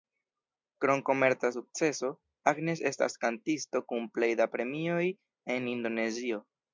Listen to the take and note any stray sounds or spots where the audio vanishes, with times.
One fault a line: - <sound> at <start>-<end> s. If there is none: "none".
none